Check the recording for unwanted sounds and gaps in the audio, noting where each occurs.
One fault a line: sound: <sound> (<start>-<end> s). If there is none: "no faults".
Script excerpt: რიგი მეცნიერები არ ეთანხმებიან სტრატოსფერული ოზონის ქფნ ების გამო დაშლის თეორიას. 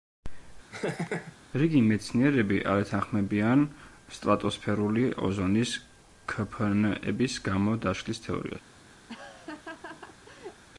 sound: laugh (0.7-1.4 s)
sound: laugh (9.1-10.6 s)